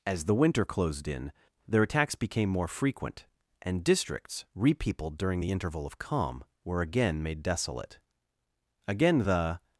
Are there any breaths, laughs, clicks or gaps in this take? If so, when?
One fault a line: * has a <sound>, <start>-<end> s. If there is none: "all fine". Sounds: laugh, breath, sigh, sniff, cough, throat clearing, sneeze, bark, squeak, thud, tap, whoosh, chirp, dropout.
all fine